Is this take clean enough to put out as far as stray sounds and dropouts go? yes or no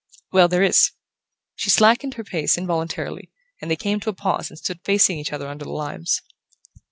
yes